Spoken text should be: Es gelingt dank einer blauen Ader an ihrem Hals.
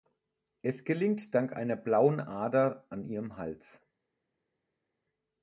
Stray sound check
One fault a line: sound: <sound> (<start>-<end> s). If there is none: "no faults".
no faults